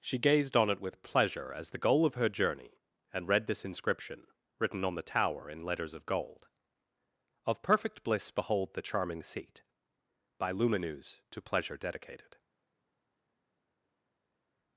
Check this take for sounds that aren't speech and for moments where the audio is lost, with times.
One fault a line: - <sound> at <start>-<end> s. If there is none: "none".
none